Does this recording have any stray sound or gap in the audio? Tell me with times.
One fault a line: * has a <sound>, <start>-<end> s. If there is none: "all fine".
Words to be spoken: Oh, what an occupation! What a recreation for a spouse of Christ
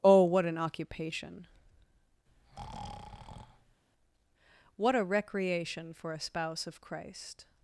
* has a breath, 2.3-3.8 s